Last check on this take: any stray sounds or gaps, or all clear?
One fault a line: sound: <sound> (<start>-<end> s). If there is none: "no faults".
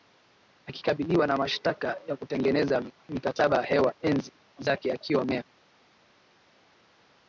no faults